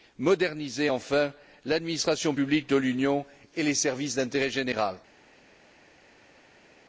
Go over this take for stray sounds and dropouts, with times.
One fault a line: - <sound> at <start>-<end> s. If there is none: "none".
none